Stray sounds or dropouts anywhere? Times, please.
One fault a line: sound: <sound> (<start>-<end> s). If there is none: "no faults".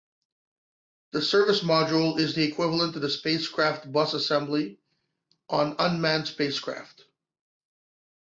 no faults